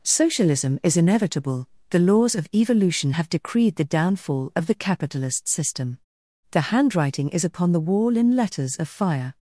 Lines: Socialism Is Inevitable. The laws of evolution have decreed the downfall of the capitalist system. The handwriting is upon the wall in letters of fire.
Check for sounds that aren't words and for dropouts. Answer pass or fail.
pass